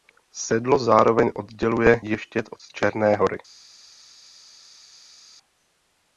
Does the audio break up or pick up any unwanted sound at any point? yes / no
no